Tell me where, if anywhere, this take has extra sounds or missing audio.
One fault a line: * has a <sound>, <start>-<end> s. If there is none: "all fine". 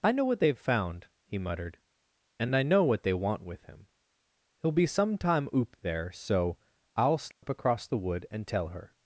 * has a dropout, 7.3-7.4 s